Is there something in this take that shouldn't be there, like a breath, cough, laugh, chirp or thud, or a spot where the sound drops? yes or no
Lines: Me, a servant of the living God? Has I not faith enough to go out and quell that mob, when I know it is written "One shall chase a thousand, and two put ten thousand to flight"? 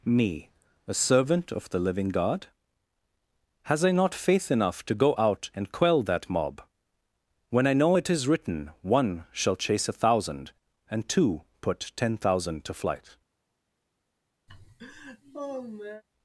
yes